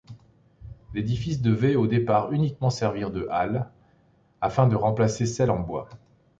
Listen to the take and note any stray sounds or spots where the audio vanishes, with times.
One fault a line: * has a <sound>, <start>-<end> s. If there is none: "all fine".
all fine